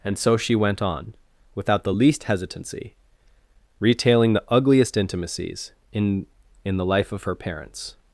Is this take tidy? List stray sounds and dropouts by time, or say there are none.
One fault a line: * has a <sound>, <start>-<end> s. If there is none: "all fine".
all fine